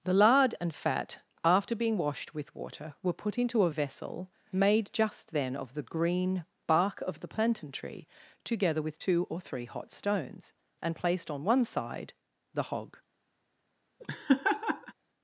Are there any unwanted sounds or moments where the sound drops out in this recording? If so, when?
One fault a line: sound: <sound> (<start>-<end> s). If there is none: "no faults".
sound: laugh (14.0-14.9 s)